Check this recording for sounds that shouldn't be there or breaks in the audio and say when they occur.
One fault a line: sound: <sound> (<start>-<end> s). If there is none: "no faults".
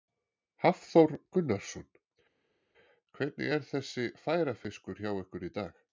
no faults